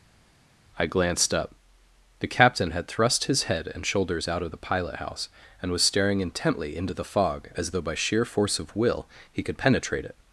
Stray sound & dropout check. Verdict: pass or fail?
pass